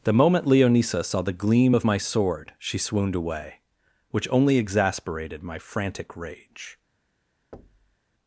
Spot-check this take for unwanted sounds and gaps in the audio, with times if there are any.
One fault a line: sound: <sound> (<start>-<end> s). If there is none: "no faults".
sound: thud (7.5-8.0 s)